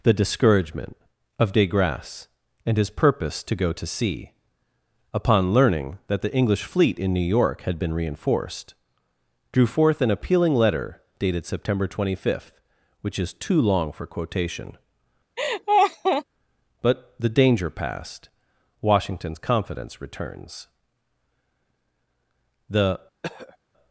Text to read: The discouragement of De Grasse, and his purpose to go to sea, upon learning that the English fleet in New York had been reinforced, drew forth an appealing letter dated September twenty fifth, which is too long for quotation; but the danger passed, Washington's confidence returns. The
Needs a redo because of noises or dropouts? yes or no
yes